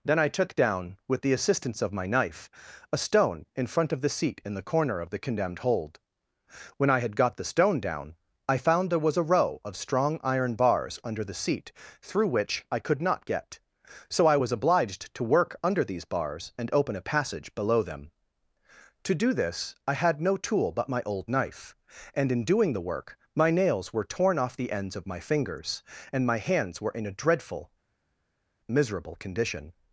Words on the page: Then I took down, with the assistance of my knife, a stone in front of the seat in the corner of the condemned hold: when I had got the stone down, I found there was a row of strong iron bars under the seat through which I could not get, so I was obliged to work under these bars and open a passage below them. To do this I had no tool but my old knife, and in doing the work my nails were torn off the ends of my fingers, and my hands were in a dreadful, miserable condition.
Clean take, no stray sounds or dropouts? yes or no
yes